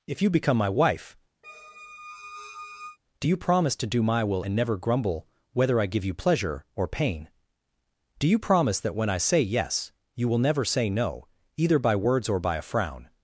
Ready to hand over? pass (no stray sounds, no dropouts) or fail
fail